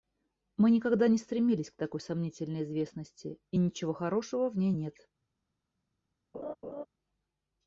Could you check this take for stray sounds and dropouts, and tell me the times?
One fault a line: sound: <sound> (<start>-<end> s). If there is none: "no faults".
sound: laugh (6.3-6.9 s)